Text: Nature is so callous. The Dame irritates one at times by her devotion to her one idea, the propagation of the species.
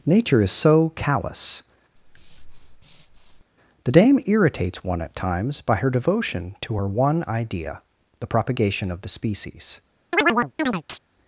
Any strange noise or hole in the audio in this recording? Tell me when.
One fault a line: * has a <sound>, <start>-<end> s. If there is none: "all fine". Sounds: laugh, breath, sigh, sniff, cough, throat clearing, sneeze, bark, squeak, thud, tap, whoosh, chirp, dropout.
* has a breath, 2.0-3.4 s
* has a chirp, 10.1-11.0 s